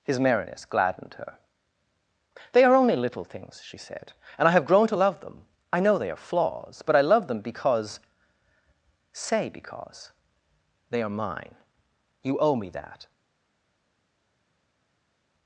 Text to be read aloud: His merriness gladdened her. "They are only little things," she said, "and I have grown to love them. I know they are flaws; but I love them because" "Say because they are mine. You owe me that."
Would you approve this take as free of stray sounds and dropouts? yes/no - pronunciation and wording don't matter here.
yes